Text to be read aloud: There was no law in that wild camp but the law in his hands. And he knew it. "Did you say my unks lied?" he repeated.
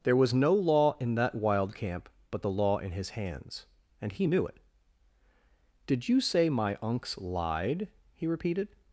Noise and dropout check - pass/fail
pass